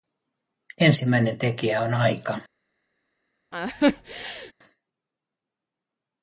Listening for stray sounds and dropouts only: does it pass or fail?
fail